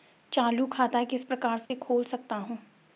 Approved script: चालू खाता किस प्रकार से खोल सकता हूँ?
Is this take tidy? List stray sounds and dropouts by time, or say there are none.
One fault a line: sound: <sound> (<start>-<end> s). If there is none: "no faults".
sound: dropout (1.7-1.7 s)